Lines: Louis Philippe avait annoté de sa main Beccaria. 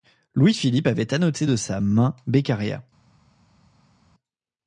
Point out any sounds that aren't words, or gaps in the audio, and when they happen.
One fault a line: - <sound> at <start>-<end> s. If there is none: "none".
none